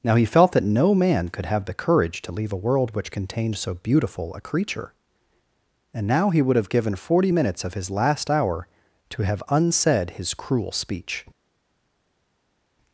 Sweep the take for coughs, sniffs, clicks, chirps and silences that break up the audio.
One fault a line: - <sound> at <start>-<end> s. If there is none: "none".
none